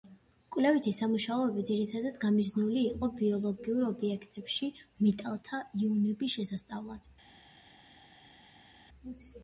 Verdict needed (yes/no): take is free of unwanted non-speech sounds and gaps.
yes